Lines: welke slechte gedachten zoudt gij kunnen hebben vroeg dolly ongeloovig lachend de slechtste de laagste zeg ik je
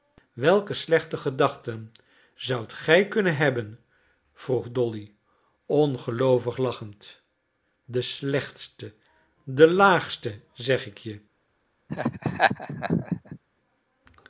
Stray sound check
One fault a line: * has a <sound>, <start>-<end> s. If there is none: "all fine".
* has a laugh, 11.9-13.4 s